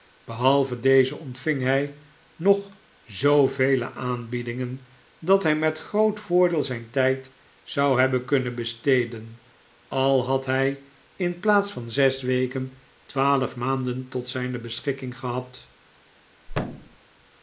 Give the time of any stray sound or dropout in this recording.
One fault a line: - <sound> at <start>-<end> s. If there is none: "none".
- thud at 16.5-17.0 s